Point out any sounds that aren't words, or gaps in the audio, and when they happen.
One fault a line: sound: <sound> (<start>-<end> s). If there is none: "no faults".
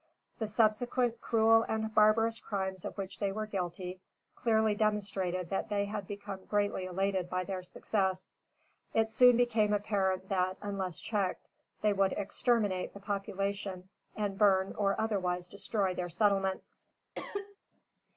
sound: cough (17.2-17.6 s)